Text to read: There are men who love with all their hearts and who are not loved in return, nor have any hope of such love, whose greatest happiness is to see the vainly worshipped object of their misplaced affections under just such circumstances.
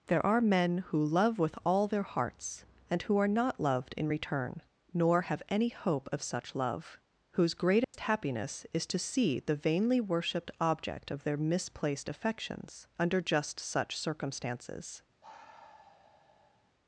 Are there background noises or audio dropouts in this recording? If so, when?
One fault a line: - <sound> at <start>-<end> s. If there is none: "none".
- dropout at 7.8-7.9 s
- sigh at 15.2-16.7 s